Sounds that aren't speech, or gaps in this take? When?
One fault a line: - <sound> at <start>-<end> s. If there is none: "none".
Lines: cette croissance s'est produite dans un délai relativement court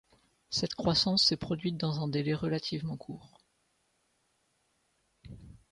none